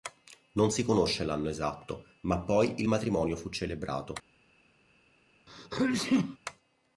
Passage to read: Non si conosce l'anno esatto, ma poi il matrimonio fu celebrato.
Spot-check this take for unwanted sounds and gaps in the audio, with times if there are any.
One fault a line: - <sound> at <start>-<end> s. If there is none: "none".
- sneeze at 5.5-6.4 s